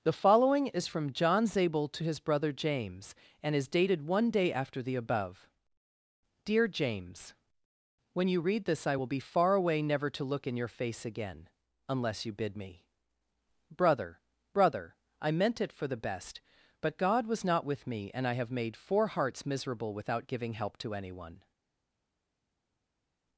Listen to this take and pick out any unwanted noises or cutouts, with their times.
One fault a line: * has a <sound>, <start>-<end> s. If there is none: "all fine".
all fine